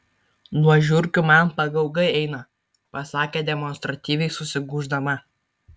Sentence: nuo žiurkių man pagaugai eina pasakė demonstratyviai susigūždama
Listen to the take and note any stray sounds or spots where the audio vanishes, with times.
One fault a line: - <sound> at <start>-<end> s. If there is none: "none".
none